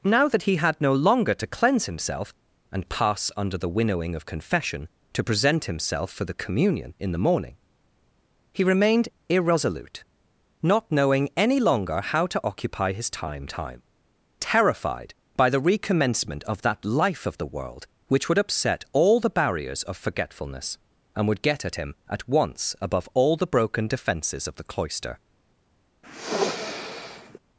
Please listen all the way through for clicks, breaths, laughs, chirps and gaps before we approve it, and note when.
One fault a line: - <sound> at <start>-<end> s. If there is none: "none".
- sniff at 26.0-27.4 s